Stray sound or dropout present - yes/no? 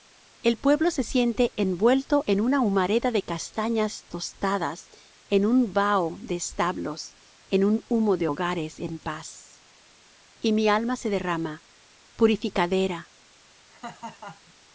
yes